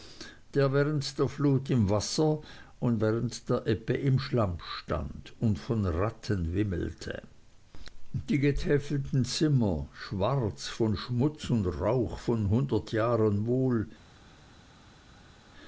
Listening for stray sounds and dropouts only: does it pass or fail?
pass